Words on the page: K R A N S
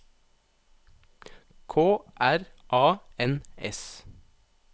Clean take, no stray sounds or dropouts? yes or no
yes